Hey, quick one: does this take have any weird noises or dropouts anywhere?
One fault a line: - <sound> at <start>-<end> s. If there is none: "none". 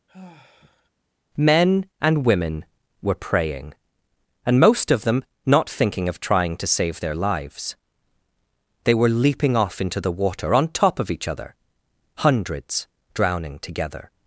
- sigh at 0.1-0.9 s